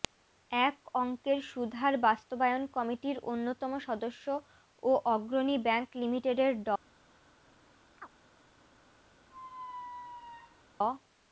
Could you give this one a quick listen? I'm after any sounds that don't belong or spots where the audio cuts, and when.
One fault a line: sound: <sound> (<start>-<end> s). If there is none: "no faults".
sound: chirp (8.0-8.1 s)
sound: squeak (9.3-10.6 s)